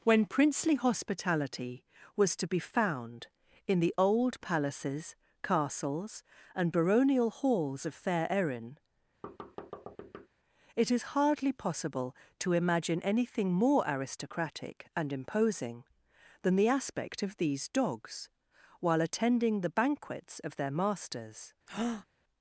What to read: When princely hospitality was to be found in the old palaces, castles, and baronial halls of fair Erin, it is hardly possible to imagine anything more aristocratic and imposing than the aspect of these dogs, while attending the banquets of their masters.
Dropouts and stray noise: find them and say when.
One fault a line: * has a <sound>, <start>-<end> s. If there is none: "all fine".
* has a thud, 9.2-10.3 s
* has a breath, 21.7-22.1 s